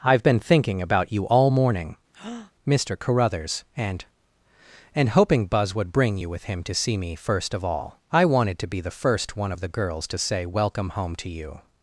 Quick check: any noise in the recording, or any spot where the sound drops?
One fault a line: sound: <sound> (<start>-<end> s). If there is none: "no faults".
sound: breath (2.1-2.5 s)